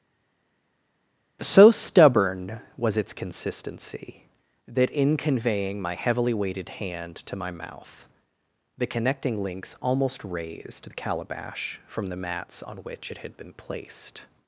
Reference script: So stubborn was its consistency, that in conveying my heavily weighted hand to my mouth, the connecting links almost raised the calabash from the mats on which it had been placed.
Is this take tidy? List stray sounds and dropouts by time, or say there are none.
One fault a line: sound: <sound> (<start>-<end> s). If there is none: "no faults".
no faults